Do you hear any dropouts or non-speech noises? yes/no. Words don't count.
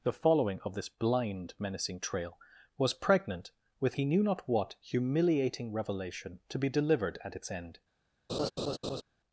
yes